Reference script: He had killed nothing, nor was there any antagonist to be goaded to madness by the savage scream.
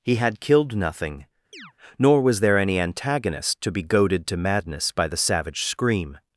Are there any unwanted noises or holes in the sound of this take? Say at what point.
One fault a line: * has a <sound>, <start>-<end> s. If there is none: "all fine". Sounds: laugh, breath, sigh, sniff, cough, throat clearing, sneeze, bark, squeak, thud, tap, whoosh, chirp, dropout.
* has a chirp, 1.5-1.7 s